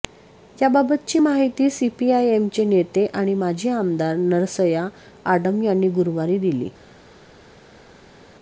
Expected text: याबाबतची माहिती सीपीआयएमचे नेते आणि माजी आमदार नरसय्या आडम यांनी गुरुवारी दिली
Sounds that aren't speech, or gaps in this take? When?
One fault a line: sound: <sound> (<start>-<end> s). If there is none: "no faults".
no faults